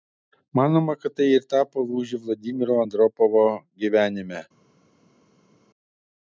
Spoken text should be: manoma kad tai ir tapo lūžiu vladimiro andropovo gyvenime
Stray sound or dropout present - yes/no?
no